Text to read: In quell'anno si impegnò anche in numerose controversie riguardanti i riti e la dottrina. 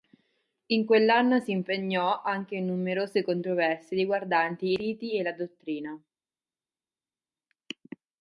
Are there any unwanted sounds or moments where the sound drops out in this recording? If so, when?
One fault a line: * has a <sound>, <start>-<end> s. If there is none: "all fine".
all fine